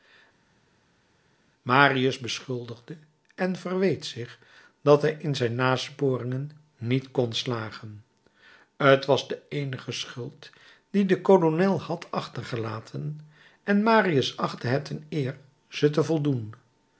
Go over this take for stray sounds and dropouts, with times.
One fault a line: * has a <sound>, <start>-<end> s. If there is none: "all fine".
all fine